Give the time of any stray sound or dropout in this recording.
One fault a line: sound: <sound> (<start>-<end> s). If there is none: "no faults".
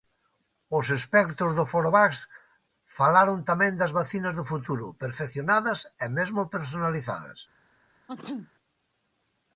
sound: sneeze (8.1-8.5 s)